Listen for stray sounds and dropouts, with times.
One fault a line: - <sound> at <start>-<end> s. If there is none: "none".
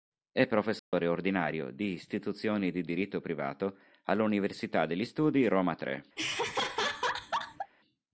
- dropout at 0.8-0.9 s
- laugh at 6.2-7.7 s